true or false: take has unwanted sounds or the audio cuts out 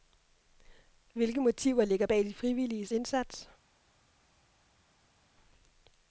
false